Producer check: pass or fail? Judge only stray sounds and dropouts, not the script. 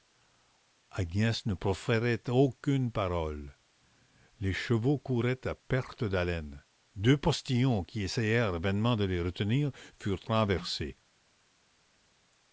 pass